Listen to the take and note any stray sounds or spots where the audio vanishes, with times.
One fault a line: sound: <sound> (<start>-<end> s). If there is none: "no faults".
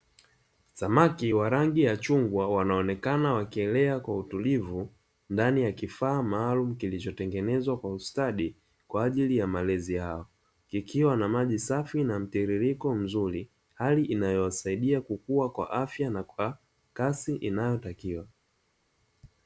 no faults